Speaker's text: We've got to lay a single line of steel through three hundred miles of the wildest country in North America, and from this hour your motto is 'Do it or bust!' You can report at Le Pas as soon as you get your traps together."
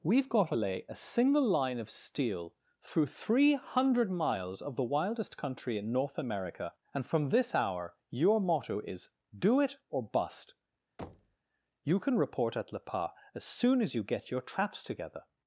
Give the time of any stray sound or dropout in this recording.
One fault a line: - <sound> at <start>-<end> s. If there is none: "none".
- thud at 11.0-11.4 s